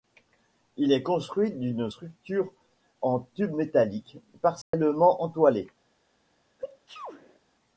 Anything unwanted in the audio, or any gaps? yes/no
yes